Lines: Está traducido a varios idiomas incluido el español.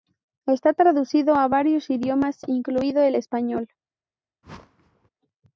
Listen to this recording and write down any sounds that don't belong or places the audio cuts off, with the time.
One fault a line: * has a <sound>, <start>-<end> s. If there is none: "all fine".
* has a whoosh, 4.4-5.1 s